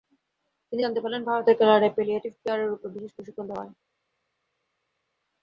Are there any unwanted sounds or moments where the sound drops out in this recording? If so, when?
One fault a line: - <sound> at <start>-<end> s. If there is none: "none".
none